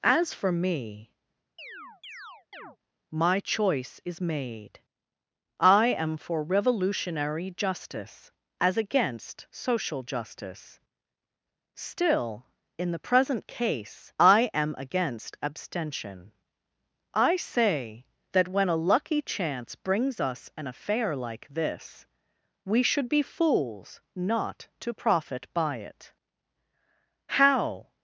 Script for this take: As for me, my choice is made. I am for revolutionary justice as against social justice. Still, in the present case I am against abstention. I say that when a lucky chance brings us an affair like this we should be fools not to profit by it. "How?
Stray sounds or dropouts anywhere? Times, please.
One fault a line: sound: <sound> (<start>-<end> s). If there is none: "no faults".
sound: chirp (1.6-2.8 s)